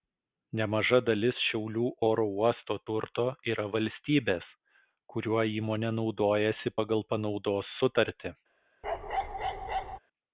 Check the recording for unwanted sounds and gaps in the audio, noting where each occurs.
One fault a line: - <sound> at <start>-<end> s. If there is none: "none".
- bark at 8.8-10.0 s